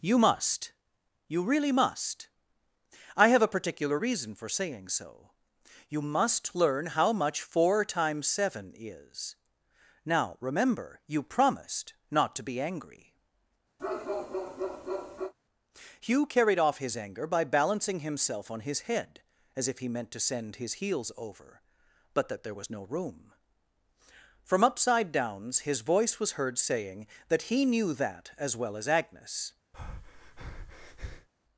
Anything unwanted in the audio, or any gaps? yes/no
yes